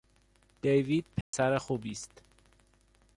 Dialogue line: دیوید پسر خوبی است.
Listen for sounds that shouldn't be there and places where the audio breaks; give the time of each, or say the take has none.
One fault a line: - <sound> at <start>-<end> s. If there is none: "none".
- dropout at 1.2-1.3 s